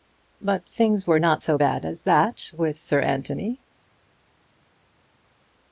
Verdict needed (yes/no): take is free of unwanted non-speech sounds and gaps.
yes